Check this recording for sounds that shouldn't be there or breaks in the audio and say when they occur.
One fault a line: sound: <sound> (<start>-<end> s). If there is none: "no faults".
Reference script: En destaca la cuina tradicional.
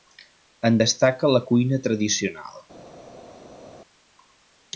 no faults